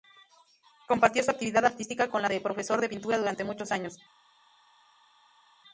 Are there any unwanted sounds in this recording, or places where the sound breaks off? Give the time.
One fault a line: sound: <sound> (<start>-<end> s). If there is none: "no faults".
no faults